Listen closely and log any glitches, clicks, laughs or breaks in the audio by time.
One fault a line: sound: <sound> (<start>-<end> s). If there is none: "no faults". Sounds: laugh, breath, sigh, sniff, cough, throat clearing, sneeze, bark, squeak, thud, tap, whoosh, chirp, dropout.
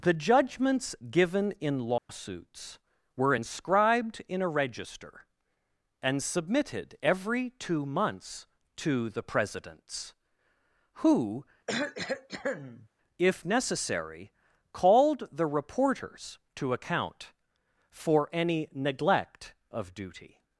sound: dropout (2.0-2.1 s)
sound: cough (11.7-12.9 s)